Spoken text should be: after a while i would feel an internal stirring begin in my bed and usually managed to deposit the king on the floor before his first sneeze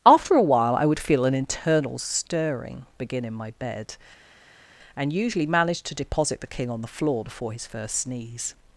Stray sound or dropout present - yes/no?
no